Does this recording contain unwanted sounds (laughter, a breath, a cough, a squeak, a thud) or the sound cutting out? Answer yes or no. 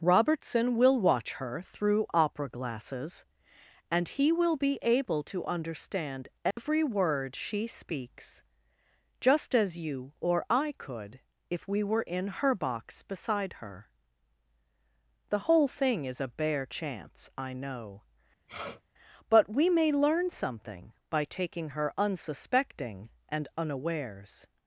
yes